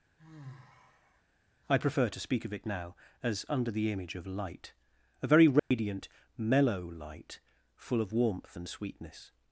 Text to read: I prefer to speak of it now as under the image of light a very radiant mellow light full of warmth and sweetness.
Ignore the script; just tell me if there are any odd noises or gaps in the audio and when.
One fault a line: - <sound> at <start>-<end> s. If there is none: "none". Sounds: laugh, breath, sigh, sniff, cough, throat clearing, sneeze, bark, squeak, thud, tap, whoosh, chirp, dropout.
- sigh at 0.2-1.2 s
- dropout at 5.6-5.7 s